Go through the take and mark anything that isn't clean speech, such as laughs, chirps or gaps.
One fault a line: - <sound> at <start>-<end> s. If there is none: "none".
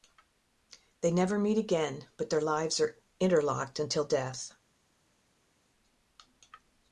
none